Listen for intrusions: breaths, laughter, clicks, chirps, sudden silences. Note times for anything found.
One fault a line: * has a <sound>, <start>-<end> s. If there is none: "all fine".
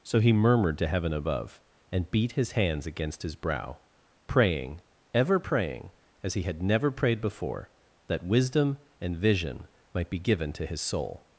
all fine